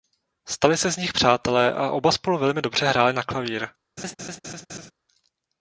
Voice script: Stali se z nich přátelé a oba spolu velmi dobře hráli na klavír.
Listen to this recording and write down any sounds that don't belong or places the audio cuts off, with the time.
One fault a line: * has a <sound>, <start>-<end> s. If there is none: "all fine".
* has a laugh, 4.0-4.9 s